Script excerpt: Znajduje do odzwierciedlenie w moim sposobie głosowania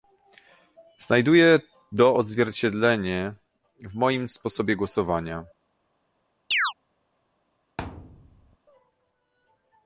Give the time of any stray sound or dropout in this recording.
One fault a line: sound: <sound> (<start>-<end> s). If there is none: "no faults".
sound: chirp (6.5-6.7 s)
sound: thud (7.8-8.6 s)